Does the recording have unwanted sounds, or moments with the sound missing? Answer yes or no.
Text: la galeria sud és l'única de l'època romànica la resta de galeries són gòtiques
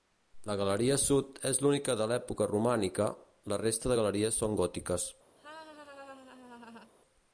yes